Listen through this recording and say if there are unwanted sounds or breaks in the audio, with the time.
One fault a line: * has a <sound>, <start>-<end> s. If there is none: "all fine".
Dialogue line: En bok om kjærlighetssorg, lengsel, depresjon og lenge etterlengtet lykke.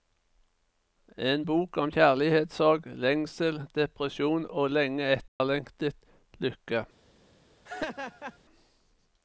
* has a dropout, 5.3-5.4 s
* has a laugh, 7.7-8.4 s